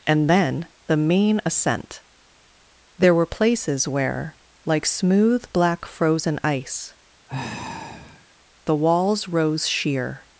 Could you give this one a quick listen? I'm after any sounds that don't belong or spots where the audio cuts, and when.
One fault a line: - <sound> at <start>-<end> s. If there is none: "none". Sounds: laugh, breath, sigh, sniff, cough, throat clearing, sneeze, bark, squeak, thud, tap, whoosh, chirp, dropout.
- sigh at 7.3-8.3 s